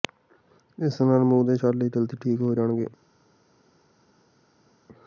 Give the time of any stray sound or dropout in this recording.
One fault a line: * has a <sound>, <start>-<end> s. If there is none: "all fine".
all fine